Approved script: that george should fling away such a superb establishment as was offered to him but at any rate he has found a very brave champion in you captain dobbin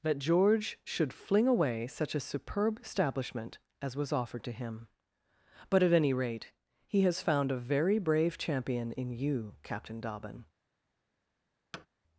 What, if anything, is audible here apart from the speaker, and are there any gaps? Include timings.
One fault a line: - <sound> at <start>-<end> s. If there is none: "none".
- thud at 11.7-11.9 s